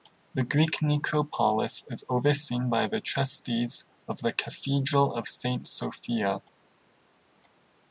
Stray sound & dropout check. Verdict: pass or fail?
pass